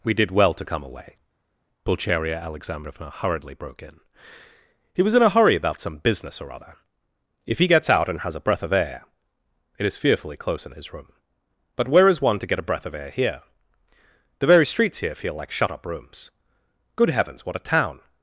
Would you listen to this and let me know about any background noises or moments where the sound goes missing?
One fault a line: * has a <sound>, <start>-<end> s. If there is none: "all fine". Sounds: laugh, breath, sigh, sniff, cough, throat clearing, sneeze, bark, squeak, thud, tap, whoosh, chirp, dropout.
all fine